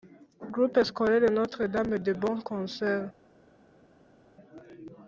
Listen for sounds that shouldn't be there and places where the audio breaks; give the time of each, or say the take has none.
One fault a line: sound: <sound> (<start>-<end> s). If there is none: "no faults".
no faults